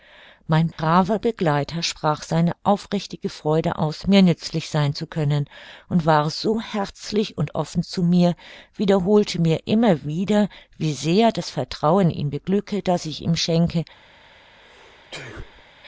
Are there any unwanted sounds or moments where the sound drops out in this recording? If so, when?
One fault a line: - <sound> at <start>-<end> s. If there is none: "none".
- dropout at 0.7-0.8 s
- sneeze at 14.6-15.6 s